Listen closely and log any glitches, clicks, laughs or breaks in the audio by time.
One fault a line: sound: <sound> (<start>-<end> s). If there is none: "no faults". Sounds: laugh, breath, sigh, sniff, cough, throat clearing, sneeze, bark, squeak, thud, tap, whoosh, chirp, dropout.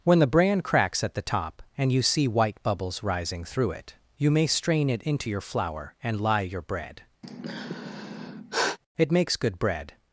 sound: sigh (7.2-8.8 s)